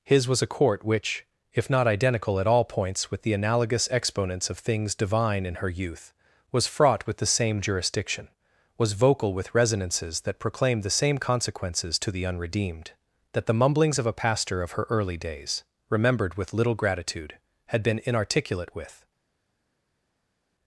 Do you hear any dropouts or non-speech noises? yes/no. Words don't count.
no